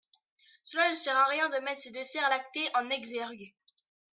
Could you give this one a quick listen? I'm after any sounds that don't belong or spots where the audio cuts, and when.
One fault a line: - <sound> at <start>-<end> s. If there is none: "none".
none